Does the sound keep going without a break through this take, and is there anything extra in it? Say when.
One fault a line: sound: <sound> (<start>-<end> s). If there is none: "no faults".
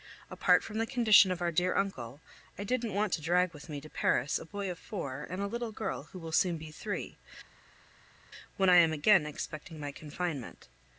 no faults